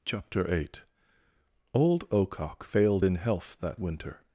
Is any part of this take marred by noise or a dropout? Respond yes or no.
no